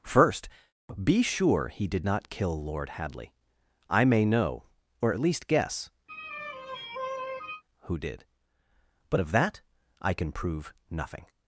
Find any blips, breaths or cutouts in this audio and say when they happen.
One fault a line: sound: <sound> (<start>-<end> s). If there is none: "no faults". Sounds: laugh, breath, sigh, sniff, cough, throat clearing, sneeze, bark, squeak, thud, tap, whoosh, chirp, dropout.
sound: sigh (6.1-7.6 s)